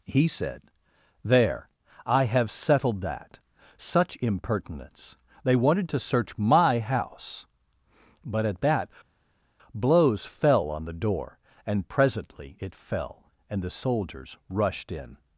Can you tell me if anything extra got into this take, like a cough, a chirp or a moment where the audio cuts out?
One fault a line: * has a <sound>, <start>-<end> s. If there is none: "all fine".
all fine